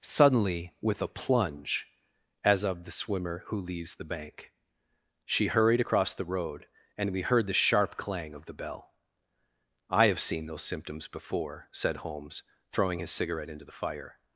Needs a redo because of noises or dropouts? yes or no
no